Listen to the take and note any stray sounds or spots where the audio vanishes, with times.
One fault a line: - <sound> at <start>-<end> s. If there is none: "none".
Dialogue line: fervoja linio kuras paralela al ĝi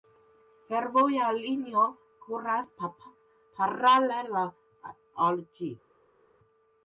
none